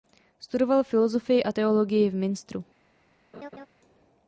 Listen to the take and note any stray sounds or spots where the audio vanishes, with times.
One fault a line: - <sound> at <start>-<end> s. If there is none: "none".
- laugh at 3.3-3.7 s